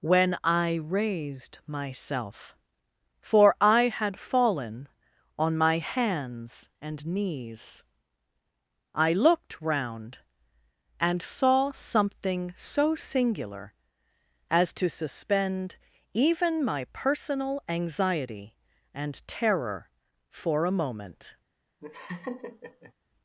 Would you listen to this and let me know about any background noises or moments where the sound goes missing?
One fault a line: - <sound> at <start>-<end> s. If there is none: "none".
- laugh at 21.8-22.9 s